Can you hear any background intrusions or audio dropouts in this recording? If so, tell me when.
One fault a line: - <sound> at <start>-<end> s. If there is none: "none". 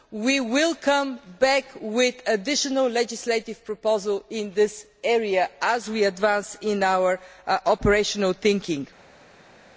none